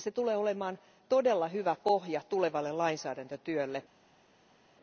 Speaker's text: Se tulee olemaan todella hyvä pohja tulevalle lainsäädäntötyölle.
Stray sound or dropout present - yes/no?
no